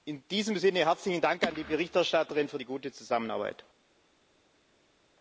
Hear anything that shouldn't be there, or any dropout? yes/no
no